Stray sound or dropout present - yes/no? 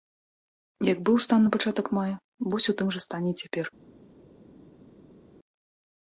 no